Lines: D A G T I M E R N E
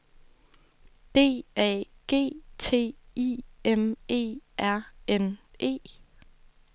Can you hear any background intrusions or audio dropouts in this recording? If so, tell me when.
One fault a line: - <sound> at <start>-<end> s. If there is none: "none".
none